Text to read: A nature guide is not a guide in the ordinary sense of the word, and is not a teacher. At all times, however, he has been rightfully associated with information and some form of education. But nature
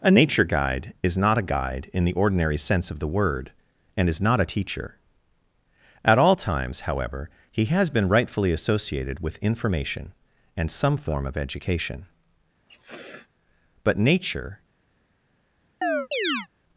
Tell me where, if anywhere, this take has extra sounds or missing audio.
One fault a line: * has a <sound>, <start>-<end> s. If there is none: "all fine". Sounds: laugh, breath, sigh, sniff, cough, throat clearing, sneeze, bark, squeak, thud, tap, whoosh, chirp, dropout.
* has a sniff, 12.7-13.3 s
* has a chirp, 15.8-16.5 s